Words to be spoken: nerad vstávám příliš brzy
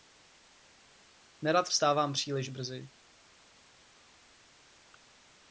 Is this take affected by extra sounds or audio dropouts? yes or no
no